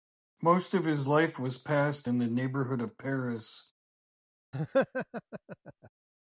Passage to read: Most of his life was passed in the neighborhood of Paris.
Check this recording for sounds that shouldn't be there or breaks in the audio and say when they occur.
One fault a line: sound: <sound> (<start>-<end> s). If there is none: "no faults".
sound: laugh (4.5-5.9 s)